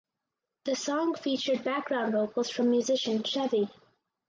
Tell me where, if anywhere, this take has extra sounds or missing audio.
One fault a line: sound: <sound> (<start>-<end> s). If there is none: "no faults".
no faults